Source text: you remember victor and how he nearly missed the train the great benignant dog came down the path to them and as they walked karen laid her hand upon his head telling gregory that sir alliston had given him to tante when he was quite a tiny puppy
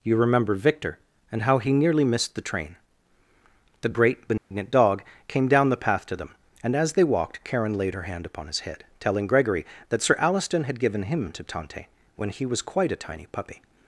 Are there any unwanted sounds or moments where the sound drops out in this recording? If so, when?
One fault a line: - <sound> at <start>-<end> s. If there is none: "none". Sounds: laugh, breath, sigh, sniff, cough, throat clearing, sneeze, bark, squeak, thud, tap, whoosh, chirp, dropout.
- dropout at 4.4-4.5 s